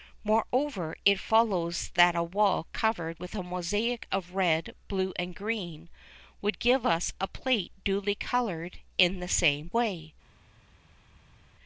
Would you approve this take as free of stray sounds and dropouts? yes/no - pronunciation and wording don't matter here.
yes